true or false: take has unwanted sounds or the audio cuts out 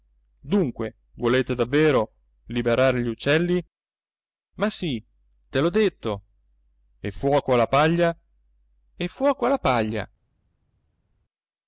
false